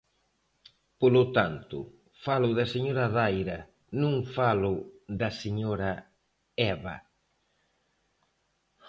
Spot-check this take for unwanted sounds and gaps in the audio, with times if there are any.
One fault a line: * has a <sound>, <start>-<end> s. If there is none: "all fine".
all fine